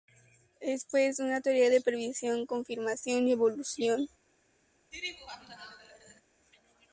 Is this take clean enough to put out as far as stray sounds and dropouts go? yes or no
no